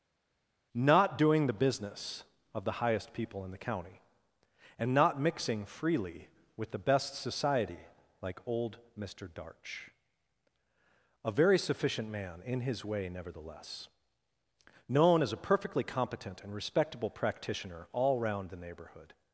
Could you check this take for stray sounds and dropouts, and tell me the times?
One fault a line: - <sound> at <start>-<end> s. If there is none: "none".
none